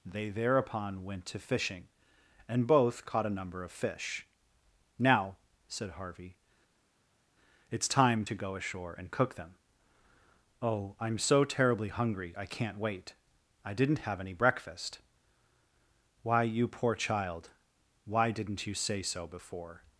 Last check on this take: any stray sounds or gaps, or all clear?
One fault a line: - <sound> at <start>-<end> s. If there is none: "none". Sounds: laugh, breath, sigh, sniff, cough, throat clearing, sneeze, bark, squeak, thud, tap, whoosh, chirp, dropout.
none